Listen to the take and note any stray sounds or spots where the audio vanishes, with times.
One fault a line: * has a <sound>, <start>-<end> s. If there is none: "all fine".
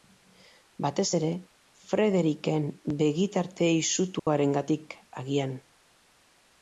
* has a dropout, 4.2-4.3 s